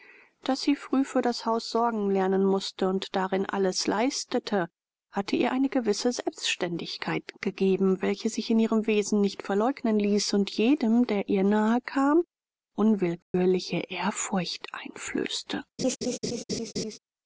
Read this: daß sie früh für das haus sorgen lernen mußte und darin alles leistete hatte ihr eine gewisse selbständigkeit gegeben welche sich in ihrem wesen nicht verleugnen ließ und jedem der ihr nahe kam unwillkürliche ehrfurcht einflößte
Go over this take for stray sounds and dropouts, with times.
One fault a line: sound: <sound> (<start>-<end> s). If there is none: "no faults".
sound: dropout (13.2-13.3 s)
sound: laugh (15.8-17.0 s)